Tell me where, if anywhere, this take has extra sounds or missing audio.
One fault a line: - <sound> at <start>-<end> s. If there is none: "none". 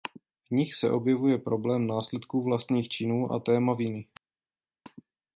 none